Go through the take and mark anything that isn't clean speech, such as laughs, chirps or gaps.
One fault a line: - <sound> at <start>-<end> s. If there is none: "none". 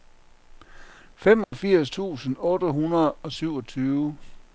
- dropout at 1.4-1.5 s